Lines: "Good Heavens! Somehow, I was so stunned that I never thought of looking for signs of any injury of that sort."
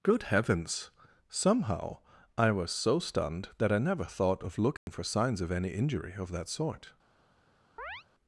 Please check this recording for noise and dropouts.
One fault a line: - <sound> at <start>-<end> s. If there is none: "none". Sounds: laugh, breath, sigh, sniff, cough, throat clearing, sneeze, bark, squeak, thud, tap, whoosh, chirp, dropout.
- dropout at 4.8-4.9 s
- chirp at 7.8-8.0 s